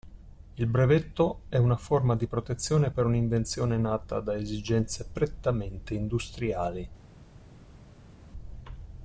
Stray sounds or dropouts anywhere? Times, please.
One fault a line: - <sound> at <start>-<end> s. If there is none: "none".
none